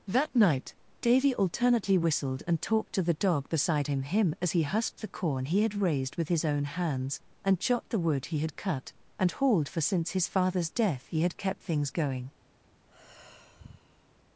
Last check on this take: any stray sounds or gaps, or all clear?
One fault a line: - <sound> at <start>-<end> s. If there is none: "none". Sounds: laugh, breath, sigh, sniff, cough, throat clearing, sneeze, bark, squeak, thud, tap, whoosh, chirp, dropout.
- sigh at 12.9-14.2 s